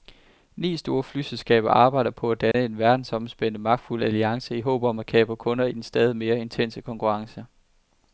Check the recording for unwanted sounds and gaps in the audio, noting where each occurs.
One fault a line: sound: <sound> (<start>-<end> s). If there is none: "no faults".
sound: dropout (2.5-2.5 s)